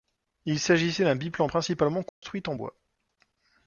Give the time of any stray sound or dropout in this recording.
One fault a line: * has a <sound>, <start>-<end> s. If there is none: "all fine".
* has a dropout, 2.1-2.2 s